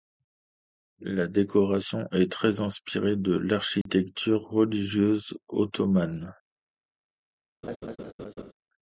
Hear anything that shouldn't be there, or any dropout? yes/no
yes